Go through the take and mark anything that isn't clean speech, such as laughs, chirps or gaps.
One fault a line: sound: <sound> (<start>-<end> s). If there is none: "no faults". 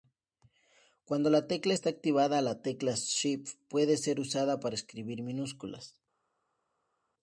no faults